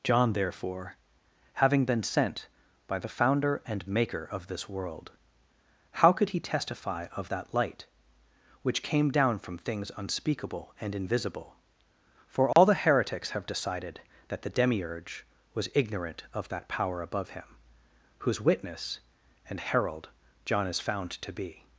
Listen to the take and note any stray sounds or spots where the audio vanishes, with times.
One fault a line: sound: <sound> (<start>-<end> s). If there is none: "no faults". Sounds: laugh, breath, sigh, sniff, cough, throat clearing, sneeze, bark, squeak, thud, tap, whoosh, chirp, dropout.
sound: dropout (12.5-12.6 s)